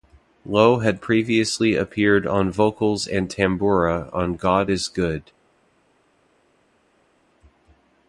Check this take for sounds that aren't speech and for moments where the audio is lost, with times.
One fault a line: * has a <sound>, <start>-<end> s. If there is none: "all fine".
all fine